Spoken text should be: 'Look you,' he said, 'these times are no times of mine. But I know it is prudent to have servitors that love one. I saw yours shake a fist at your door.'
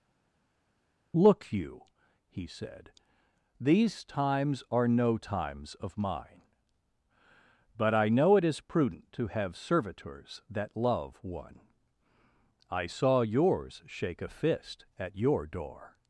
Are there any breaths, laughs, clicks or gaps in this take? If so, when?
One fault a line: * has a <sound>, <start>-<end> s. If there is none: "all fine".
all fine